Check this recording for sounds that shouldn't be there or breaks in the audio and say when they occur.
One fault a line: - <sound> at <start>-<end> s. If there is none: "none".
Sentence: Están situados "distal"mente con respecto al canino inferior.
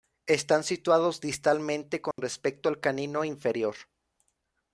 - dropout at 2.1-2.2 s